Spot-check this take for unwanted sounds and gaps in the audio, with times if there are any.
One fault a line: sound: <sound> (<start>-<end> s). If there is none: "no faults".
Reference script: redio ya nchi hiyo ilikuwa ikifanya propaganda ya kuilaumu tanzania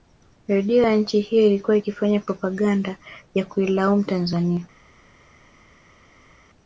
no faults